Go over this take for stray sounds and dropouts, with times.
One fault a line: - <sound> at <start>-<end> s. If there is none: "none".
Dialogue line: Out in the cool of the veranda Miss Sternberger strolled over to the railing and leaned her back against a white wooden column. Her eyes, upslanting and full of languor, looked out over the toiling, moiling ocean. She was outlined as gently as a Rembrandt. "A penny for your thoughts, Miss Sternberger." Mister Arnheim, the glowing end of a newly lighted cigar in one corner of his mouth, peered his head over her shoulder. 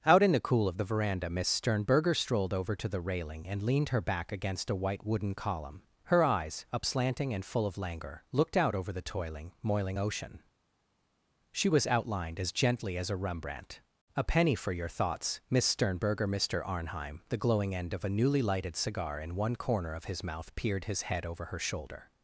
none